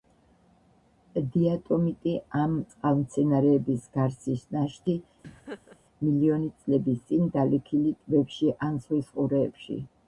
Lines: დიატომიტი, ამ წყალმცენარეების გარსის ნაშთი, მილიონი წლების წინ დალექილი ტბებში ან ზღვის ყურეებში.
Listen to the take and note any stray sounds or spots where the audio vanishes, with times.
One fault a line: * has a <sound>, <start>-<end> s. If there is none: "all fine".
* has a laugh, 5.2-5.8 s